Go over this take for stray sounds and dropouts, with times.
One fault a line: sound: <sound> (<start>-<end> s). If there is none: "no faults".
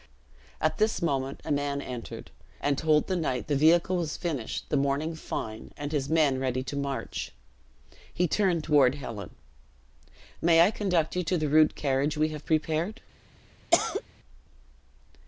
sound: cough (13.7-14.0 s)